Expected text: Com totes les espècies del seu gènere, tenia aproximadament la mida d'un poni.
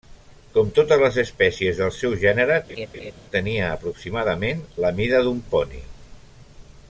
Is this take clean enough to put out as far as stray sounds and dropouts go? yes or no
no